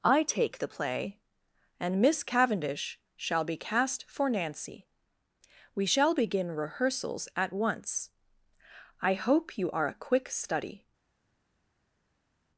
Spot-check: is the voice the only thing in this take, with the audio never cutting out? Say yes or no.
yes